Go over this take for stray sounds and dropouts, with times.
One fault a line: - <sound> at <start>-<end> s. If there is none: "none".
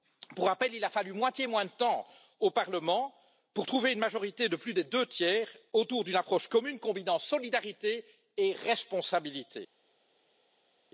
none